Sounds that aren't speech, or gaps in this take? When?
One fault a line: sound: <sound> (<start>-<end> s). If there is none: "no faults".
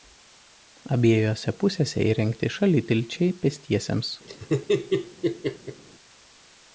sound: laugh (4.3-5.8 s)